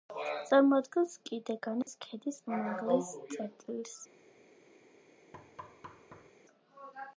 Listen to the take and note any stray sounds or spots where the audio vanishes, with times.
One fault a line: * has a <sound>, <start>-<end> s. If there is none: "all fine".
* has a dropout, 1.8-1.9 s
* has a thud, 5.3-6.3 s